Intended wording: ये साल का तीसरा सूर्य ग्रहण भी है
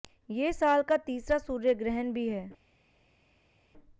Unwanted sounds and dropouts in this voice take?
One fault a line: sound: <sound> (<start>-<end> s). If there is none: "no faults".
no faults